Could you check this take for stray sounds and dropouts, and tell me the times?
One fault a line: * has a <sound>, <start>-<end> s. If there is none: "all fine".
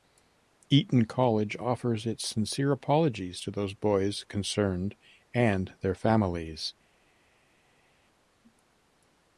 all fine